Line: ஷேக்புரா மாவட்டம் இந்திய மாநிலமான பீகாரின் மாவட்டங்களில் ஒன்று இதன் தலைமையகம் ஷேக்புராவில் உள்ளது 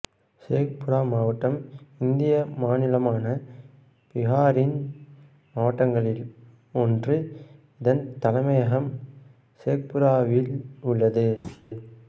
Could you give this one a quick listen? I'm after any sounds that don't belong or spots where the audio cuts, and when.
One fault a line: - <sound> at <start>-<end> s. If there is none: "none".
- thud at 11.4-11.7 s